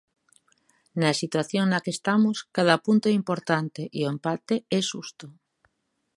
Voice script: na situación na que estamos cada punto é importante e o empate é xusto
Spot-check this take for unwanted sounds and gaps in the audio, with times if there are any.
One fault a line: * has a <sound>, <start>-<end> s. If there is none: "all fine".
all fine